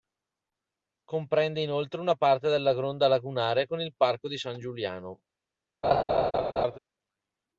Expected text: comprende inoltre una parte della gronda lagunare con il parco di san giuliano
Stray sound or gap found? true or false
true